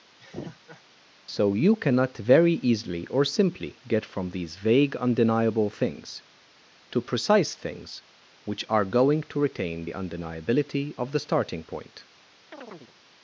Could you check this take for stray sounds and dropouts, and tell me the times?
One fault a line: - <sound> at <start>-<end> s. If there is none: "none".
- laugh at 0.2-0.8 s
- chirp at 12.5-12.9 s